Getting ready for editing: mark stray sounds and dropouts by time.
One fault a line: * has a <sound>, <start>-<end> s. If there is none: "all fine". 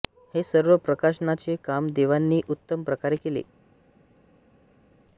all fine